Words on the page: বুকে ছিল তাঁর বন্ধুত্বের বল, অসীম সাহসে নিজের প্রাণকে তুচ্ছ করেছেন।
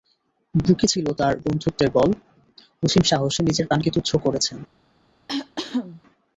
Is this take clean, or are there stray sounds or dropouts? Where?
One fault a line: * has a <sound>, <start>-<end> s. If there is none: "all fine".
* has a cough, 5.3-6.0 s